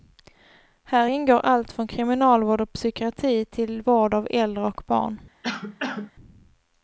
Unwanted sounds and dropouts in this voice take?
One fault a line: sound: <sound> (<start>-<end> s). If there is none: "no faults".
sound: cough (5.4-6.1 s)